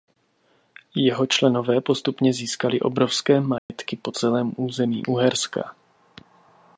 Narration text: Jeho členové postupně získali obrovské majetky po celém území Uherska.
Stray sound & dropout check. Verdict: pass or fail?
fail